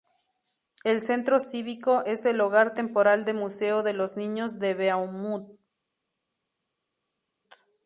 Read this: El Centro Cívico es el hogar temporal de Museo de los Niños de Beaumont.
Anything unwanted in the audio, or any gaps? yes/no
no